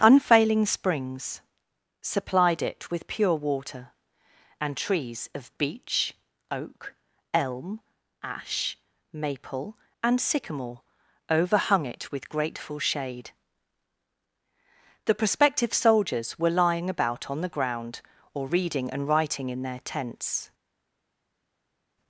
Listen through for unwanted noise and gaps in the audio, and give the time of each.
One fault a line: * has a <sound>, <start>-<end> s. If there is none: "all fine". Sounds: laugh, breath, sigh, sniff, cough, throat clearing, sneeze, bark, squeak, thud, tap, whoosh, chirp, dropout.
all fine